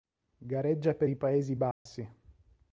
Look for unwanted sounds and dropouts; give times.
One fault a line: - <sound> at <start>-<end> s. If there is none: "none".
- dropout at 1.7-1.9 s